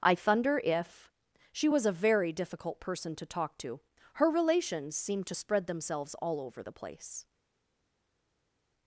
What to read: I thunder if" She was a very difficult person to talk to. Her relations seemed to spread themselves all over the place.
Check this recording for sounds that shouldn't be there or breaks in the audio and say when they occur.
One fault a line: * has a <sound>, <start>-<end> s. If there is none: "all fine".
all fine